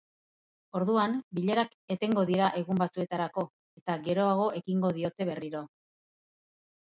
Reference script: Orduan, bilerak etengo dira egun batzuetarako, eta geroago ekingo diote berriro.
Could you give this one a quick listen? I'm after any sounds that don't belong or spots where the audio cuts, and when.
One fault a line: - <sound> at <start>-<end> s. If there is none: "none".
none